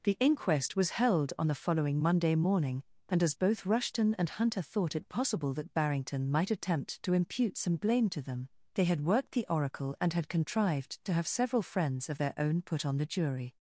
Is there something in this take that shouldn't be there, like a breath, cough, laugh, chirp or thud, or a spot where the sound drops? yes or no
no